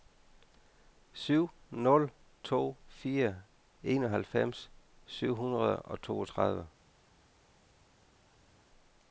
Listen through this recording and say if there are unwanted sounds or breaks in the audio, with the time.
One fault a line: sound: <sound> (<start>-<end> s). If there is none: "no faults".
no faults